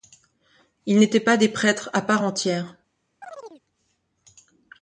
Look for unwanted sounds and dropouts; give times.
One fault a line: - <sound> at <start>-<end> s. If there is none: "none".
- chirp at 3.2-3.6 s